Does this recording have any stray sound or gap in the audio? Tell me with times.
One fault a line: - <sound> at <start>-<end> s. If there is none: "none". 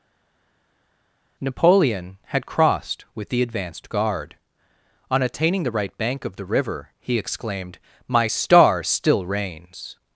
none